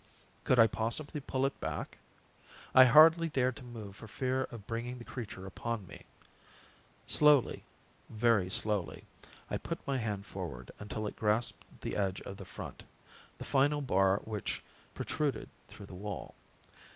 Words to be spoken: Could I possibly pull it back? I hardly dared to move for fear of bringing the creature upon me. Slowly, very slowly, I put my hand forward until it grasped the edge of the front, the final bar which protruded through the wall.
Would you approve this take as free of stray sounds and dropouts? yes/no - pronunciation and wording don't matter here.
yes